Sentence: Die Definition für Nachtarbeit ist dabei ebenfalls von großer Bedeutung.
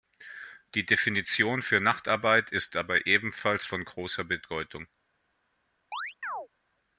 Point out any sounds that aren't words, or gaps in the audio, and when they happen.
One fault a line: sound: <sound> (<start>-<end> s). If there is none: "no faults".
sound: chirp (5.9-6.5 s)